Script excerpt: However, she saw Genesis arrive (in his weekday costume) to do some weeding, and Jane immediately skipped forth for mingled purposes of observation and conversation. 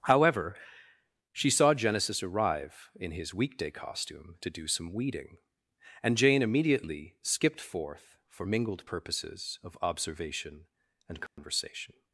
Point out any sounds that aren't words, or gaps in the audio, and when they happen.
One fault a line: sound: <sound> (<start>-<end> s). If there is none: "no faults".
sound: dropout (11.3-11.4 s)